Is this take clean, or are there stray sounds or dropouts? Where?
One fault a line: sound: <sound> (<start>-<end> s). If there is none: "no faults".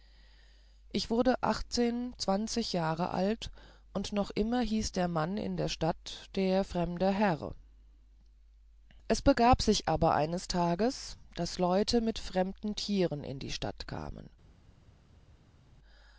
no faults